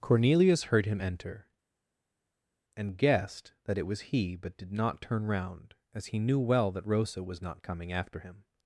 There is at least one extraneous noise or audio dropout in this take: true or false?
false